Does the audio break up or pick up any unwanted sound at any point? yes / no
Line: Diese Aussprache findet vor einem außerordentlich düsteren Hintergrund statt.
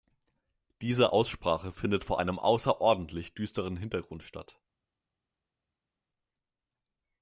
no